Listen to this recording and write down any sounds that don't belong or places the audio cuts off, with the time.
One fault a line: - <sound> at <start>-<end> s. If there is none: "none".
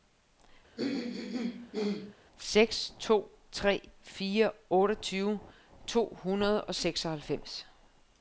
- throat clearing at 0.8-2.2 s